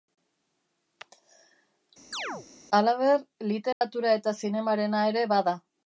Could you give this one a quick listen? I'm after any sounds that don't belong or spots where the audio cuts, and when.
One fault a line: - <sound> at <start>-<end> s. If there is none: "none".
- chirp at 2.1-2.5 s
- dropout at 3.7-3.8 s